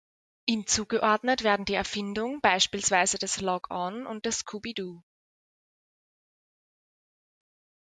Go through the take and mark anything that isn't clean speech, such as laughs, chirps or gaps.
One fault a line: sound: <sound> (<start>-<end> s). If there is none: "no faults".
no faults